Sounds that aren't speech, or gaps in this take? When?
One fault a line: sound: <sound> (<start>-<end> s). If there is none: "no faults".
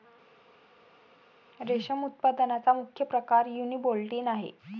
no faults